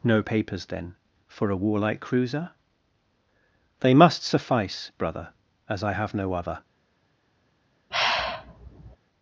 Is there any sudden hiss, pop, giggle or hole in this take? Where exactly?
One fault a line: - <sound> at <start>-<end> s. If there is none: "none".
- sigh at 7.9-9.0 s